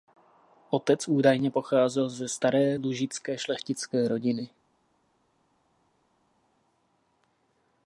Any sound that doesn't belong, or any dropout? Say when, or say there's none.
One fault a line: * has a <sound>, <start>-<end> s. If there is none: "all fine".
all fine